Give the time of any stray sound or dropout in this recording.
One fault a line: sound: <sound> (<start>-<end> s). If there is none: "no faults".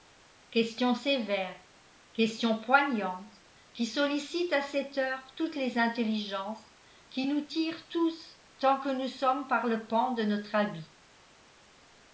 no faults